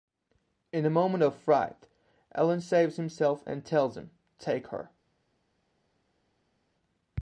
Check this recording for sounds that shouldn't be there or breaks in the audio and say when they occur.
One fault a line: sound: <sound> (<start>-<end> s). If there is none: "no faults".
no faults